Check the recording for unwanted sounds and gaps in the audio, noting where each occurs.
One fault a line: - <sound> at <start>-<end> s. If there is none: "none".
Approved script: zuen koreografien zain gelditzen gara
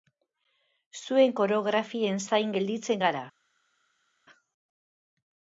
none